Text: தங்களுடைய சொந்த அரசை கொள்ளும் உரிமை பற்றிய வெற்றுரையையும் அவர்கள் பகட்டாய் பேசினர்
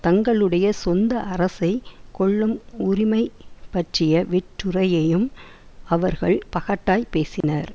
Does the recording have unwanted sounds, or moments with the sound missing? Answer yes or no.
yes